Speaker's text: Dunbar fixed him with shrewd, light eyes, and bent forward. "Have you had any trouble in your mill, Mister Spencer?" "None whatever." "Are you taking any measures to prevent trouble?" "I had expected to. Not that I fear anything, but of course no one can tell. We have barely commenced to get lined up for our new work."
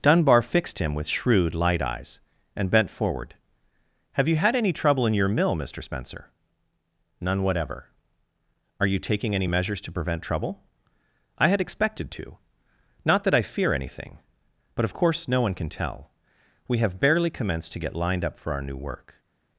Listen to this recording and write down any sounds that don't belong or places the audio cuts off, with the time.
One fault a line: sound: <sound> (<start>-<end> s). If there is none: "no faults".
no faults